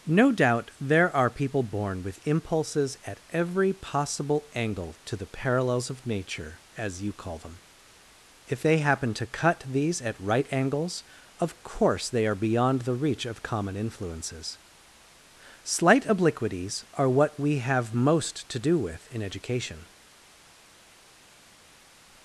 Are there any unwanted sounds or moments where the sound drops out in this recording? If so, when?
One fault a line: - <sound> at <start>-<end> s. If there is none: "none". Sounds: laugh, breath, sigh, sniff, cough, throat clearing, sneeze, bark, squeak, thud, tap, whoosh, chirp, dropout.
none